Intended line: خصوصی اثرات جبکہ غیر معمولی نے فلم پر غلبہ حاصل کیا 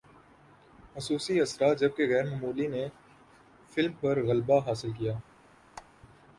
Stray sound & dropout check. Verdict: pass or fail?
fail